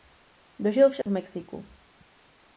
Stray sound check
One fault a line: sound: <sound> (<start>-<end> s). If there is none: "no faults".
sound: dropout (1.0-1.1 s)